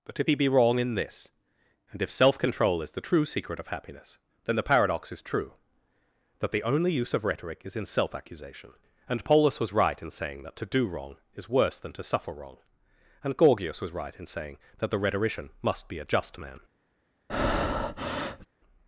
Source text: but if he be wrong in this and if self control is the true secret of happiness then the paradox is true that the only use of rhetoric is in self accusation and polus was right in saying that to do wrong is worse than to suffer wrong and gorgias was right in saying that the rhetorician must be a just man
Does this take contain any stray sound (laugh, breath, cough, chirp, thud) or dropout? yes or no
yes